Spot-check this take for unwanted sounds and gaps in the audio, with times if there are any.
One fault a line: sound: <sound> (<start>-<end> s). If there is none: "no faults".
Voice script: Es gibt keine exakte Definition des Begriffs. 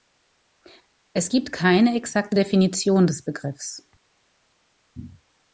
no faults